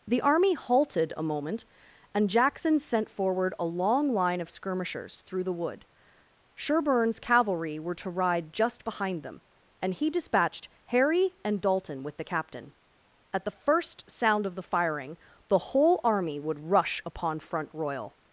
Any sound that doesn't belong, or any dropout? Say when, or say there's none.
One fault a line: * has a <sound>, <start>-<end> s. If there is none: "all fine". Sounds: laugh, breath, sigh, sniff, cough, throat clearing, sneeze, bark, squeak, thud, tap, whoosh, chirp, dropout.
all fine